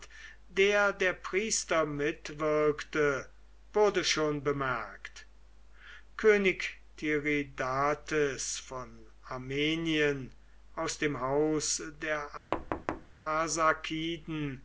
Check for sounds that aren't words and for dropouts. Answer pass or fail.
fail